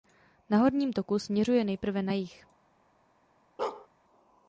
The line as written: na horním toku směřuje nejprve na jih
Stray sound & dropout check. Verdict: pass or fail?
fail